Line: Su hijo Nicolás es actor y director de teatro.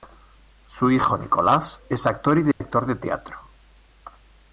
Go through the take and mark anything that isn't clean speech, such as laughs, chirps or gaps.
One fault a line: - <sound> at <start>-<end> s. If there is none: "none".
- dropout at 2.5-2.6 s